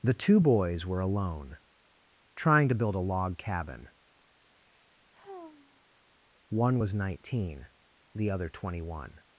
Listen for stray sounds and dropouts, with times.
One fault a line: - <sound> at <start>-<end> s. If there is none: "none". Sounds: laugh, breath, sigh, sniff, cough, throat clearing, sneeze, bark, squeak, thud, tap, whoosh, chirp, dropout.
- sigh at 4.5-5.8 s